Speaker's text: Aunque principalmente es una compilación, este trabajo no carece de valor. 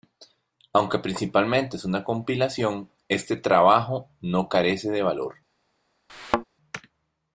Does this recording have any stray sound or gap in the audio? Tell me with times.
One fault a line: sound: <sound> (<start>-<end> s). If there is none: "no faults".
sound: thud (6.1-6.4 s)